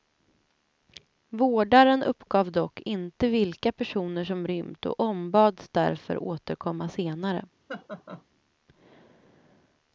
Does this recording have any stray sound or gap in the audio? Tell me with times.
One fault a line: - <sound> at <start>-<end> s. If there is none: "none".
- laugh at 7.7-8.2 s